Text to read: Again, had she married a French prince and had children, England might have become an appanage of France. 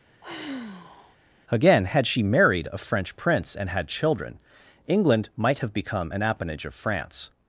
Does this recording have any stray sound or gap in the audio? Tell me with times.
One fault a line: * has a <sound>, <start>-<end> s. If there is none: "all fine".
* has a sigh, 0.2-1.2 s